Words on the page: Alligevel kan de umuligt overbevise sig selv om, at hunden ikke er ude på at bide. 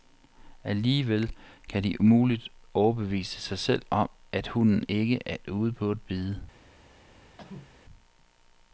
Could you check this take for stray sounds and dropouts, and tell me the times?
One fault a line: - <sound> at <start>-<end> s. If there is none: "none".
- cough at 7.4-7.8 s